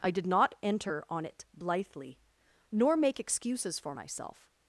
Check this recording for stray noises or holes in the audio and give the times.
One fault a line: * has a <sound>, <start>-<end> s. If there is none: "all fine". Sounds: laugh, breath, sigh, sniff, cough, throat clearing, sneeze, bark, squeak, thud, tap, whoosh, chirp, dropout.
all fine